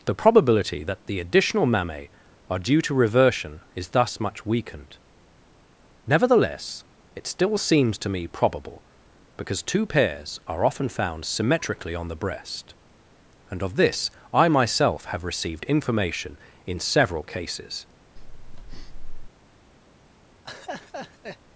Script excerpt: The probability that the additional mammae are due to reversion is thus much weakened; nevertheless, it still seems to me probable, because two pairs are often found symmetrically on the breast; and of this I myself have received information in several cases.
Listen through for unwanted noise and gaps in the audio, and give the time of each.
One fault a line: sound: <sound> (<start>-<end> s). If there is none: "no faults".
sound: breath (18.2-19.3 s)
sound: laugh (20.4-21.4 s)